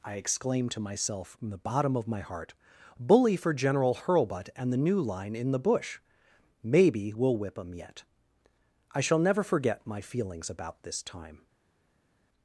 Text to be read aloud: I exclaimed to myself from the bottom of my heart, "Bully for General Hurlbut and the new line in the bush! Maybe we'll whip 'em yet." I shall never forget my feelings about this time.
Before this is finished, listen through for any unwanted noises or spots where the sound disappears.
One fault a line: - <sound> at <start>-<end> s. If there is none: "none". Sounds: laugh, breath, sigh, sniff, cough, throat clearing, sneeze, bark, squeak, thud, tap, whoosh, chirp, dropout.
none